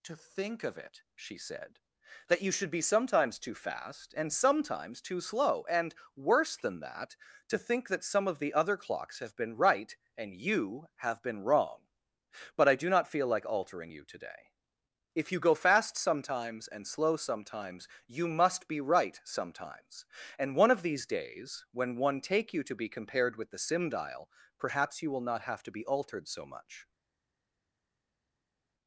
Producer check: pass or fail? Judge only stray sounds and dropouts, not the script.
pass